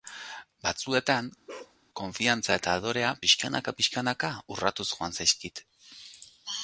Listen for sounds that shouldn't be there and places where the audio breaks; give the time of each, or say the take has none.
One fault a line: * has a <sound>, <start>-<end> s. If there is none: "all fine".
* has a bark, 1.5-1.8 s